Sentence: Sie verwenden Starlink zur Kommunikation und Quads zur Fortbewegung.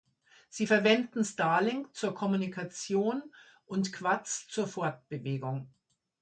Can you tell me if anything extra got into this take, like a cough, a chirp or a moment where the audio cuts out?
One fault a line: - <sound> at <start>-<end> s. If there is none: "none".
none